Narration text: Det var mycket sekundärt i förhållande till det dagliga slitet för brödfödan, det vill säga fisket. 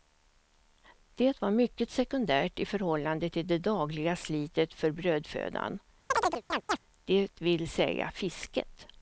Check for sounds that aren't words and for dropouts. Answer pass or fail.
fail